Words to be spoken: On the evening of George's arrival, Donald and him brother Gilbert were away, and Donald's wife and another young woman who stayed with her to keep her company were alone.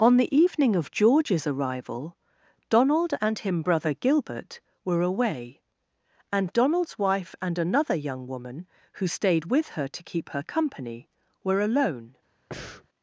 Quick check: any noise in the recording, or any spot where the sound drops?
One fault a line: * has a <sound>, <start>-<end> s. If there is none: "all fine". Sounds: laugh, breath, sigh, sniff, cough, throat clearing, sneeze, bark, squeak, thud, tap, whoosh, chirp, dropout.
* has a breath, 12.5-12.9 s